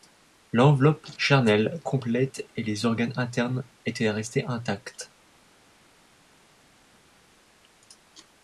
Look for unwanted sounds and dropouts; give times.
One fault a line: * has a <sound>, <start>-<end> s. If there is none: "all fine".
all fine